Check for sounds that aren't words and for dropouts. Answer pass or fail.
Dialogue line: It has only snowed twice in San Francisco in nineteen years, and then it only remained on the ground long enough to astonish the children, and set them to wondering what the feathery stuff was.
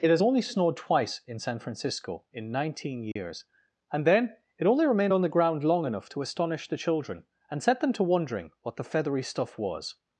fail